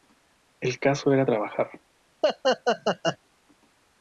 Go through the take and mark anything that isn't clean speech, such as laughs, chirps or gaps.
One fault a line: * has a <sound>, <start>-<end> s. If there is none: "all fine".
* has a laugh, 2.2-3.2 s